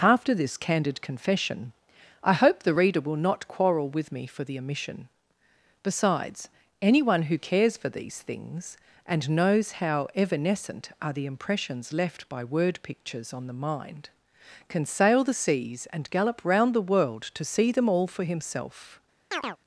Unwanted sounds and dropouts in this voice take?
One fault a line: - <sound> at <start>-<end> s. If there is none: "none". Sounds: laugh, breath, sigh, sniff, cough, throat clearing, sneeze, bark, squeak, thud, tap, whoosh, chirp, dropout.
- chirp at 19.3-19.6 s